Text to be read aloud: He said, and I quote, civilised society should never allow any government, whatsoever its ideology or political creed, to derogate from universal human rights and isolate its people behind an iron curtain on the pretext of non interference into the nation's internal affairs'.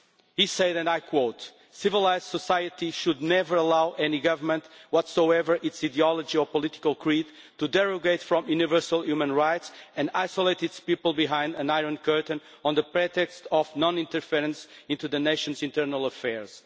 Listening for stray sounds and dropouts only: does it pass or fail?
pass